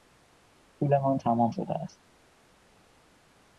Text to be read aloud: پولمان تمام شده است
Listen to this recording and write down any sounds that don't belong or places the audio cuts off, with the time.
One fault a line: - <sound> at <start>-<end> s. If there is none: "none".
none